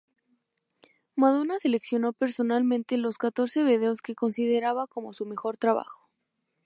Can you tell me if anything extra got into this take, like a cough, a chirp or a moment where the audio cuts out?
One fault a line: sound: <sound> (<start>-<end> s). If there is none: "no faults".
no faults